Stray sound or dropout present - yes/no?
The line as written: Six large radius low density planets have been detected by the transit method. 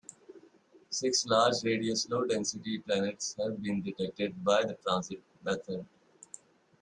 no